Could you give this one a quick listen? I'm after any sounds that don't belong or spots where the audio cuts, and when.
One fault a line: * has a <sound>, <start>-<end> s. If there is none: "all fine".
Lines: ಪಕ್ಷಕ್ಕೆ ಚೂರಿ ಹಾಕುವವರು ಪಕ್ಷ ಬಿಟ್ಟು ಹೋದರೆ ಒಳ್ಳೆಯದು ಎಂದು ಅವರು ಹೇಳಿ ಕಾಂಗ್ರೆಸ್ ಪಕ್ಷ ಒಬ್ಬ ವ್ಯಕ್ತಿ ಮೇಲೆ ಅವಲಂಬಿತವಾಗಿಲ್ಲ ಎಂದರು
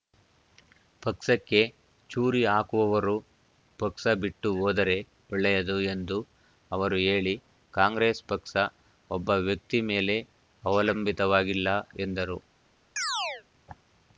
* has a chirp, 13.0-13.4 s